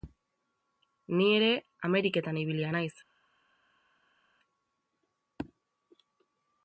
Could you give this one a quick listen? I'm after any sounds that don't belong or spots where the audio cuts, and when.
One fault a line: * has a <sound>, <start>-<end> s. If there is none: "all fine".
all fine